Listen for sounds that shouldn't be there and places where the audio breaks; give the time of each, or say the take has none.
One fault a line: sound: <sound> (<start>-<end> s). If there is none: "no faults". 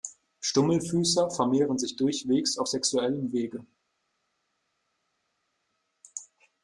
no faults